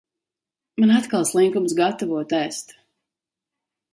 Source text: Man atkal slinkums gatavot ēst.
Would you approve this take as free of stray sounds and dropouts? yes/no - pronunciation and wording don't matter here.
yes